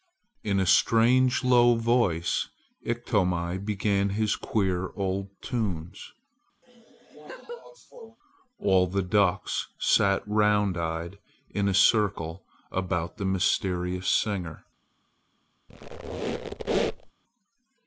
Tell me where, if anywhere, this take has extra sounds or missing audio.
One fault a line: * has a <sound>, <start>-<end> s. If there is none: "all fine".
* has a laugh, 6.6-8.2 s
* has a squeak, 15.7-17.1 s